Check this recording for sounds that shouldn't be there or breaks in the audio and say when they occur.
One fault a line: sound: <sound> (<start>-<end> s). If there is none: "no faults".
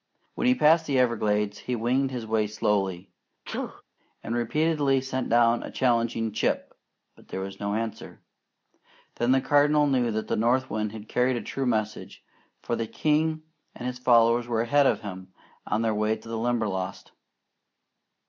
sound: sneeze (3.5-3.8 s)